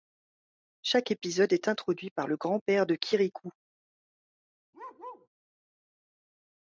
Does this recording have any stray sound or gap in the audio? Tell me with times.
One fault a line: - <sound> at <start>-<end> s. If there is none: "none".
- bark at 4.7-5.3 s